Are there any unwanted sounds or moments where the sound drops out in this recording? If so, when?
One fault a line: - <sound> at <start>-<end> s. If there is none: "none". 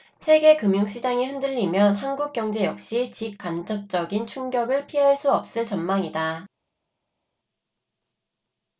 none